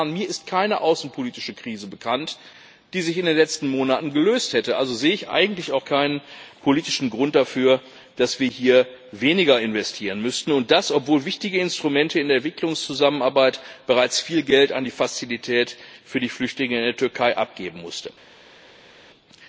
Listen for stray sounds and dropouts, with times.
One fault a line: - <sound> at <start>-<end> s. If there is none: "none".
none